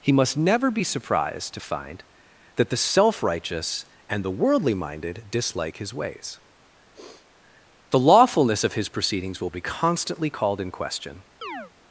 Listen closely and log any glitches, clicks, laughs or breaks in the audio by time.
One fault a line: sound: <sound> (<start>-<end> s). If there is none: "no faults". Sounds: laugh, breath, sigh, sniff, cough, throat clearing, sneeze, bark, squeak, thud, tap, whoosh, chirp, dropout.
sound: sniff (6.9-7.3 s)
sound: chirp (11.4-11.7 s)